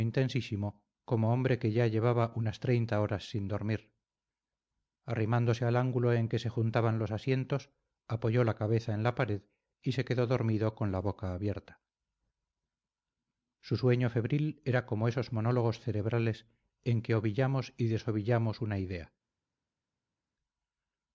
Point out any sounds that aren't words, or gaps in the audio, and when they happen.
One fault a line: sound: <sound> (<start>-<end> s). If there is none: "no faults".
no faults